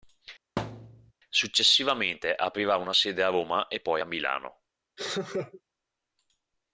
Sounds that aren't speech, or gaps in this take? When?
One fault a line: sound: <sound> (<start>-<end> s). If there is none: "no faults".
sound: thud (0.6-1.1 s)
sound: laugh (5.0-5.6 s)